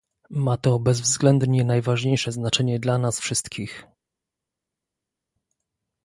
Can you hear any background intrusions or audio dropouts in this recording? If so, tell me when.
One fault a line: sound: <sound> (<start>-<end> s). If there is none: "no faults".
no faults